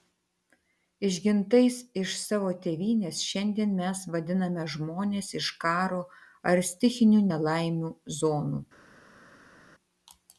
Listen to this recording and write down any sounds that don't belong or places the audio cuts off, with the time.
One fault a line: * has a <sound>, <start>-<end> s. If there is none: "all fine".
all fine